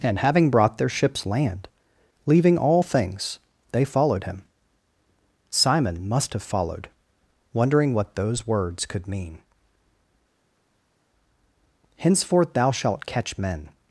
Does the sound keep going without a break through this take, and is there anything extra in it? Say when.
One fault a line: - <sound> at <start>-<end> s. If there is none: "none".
none